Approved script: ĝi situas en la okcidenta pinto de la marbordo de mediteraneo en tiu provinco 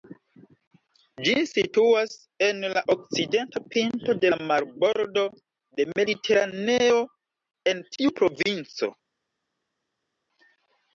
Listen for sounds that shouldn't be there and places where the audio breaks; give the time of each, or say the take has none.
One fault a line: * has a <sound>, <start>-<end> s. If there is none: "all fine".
all fine